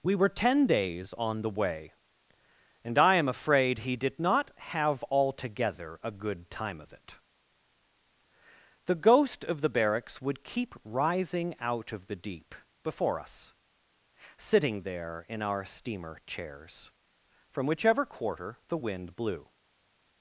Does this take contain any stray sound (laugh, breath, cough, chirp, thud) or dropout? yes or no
no